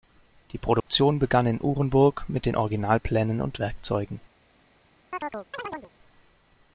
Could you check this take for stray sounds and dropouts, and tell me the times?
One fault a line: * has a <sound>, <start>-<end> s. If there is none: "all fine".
* has a dropout, 0.8-0.9 s
* has a chirp, 5.1-5.9 s